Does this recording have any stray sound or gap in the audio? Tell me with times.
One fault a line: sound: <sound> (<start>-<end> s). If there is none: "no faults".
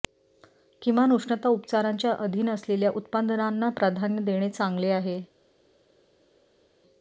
no faults